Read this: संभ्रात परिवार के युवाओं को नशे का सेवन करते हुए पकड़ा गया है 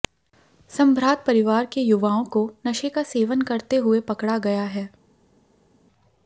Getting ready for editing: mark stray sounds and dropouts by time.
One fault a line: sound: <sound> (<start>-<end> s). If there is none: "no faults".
no faults